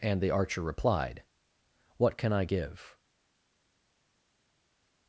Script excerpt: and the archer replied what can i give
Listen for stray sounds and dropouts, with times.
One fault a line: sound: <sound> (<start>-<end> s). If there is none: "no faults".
no faults